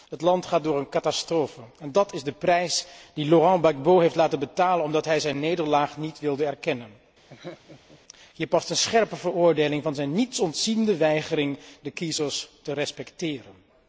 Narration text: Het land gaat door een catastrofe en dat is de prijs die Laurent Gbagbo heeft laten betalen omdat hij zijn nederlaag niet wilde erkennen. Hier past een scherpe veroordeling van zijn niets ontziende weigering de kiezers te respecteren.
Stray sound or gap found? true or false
true